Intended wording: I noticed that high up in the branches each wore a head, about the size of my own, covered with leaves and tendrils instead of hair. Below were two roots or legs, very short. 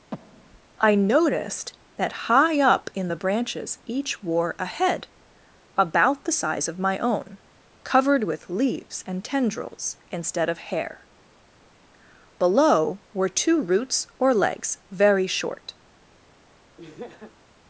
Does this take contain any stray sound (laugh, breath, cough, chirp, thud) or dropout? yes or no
yes